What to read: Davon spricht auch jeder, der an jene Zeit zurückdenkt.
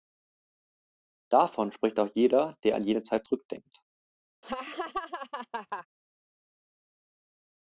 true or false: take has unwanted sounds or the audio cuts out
true